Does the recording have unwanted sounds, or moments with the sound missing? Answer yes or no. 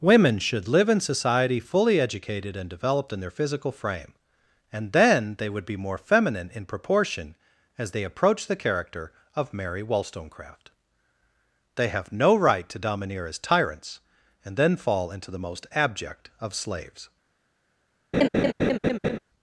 yes